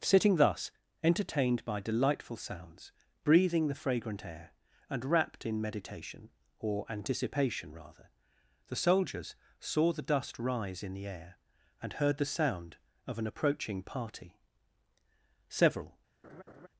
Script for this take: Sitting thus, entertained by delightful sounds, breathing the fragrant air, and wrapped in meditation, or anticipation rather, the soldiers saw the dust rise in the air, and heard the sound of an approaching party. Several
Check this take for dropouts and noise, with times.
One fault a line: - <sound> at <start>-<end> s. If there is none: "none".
- laugh at 16.2-16.7 s